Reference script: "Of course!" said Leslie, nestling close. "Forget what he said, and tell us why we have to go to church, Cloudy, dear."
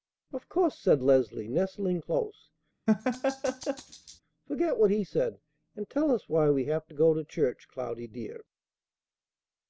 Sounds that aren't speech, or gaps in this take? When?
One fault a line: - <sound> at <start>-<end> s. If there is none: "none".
- laugh at 2.9-4.2 s